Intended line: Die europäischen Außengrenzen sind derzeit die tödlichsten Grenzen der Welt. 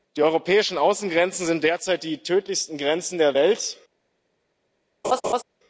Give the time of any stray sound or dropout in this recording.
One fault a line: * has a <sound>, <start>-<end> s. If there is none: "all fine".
* has a laugh, 5.0-5.4 s